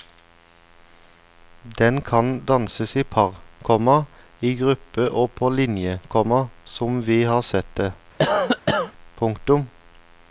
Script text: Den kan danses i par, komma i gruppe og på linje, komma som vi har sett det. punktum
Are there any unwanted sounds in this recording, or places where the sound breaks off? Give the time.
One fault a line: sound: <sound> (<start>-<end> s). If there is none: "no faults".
sound: cough (8.2-8.9 s)